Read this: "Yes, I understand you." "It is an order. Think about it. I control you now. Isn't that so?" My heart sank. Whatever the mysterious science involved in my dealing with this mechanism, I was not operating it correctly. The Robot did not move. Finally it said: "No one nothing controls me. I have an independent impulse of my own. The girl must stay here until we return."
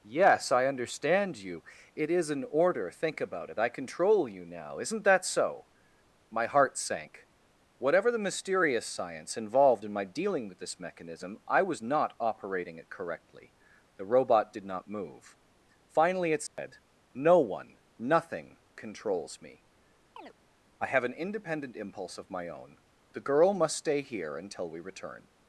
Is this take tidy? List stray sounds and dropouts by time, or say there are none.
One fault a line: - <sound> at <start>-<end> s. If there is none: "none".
- dropout at 16.5-16.6 s
- chirp at 20.2-20.3 s